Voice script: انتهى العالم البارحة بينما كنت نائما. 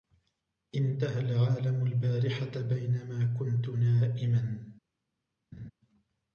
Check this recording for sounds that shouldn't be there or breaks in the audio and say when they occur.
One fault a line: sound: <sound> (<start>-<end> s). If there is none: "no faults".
sound: laugh (5.5-5.7 s)